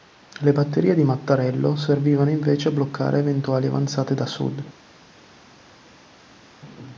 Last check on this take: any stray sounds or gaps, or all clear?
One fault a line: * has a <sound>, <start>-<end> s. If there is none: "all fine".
all fine